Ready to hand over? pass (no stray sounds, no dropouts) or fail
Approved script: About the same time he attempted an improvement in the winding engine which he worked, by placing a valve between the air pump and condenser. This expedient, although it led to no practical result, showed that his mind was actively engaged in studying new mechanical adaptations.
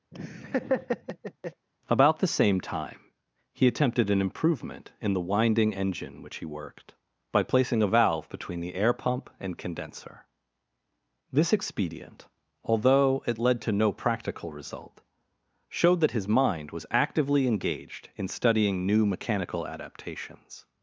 fail